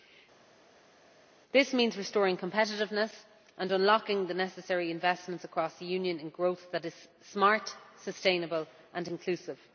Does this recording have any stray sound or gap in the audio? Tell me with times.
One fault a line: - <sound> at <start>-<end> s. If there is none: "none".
none